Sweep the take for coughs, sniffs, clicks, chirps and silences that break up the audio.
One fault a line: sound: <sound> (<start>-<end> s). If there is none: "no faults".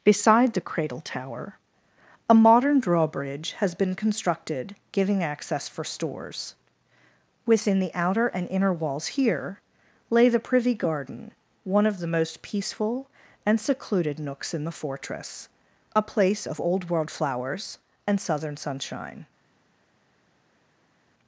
no faults